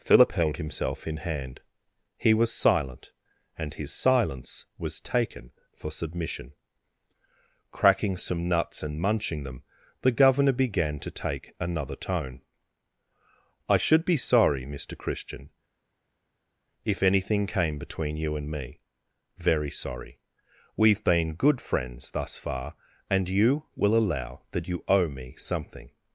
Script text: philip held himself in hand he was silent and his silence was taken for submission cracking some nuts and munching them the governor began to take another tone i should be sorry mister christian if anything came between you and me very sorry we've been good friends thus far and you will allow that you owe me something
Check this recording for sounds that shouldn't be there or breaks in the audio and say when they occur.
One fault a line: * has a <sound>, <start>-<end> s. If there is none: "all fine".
all fine